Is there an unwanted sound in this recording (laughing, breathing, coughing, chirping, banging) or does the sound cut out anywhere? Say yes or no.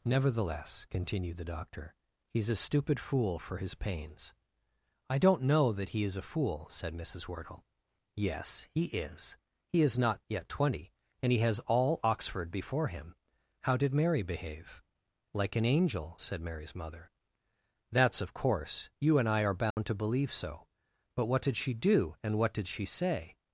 yes